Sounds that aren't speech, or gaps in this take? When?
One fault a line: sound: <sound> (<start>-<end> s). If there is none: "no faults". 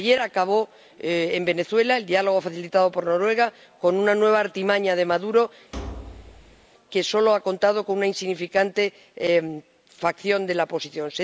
sound: thud (5.7-6.7 s)